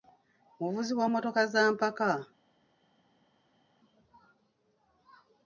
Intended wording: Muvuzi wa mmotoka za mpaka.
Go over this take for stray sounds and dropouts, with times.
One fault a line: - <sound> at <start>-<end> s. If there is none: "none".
none